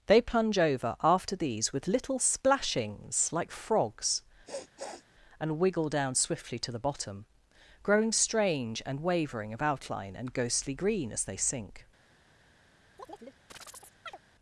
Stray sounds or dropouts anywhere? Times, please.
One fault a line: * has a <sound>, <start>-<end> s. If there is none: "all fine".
* has a sniff, 4.5-5.0 s
* has a chirp, 13.0-14.2 s